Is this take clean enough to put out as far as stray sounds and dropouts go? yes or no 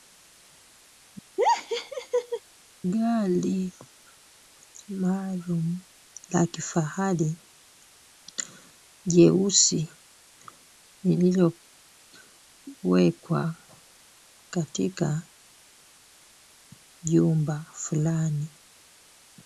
no